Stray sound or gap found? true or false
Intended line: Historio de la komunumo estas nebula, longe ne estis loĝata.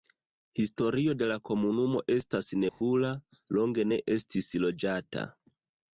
true